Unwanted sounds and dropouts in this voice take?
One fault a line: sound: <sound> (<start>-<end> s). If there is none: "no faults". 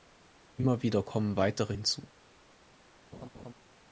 sound: laugh (3.1-3.5 s)